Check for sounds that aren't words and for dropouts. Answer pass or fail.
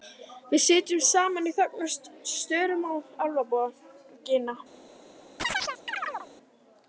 fail